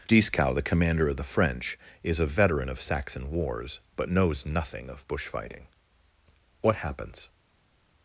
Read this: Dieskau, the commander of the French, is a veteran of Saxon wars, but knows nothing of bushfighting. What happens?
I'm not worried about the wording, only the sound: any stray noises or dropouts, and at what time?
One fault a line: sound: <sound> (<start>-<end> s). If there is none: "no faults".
no faults